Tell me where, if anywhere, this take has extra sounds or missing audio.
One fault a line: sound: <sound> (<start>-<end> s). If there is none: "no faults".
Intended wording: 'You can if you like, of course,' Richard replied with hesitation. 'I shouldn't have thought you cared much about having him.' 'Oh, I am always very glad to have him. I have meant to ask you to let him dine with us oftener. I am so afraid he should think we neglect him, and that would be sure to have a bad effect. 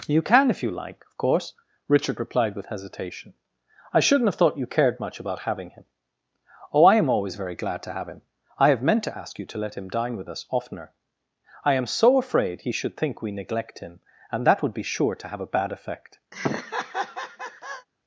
sound: laugh (16.3-17.9 s)